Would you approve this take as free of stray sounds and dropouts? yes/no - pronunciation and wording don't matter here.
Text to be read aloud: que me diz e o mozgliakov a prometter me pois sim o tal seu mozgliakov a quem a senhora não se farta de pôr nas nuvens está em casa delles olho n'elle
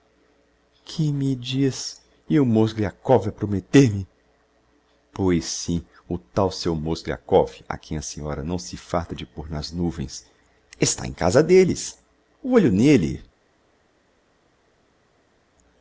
yes